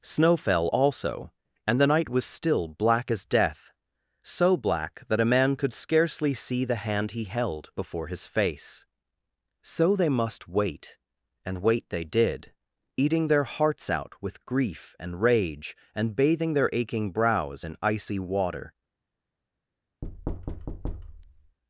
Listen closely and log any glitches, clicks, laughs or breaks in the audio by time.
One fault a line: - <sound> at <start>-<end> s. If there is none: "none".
- thud at 20.0-21.6 s